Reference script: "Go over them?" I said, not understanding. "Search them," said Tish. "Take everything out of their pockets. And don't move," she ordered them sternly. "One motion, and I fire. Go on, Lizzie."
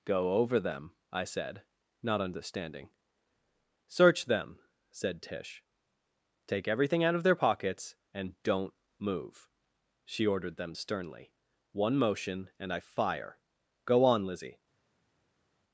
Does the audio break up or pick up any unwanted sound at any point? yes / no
no